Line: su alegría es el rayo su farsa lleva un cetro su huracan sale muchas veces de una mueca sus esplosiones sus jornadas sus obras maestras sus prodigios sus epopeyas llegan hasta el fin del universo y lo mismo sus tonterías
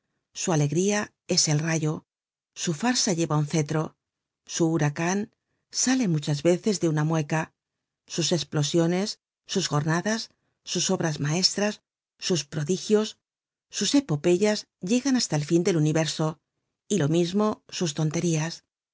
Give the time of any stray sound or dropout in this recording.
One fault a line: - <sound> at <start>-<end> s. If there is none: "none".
none